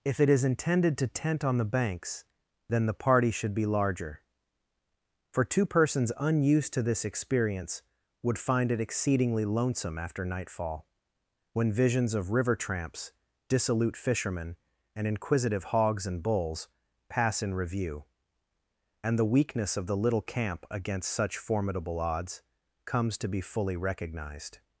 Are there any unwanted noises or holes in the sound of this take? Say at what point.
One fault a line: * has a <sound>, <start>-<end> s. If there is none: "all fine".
all fine